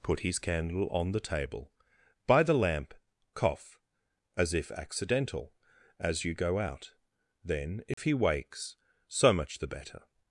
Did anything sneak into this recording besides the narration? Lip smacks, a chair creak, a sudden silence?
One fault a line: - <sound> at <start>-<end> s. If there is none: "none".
- dropout at 7.9-8.0 s